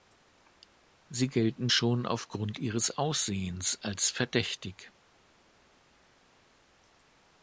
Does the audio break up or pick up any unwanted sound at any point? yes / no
no